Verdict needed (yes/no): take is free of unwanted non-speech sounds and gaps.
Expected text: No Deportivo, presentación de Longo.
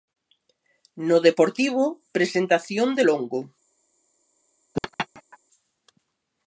no